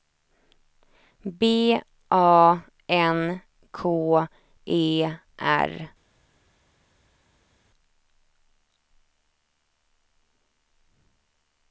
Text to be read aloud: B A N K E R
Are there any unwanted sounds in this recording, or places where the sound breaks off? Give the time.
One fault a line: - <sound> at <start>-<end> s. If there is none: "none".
none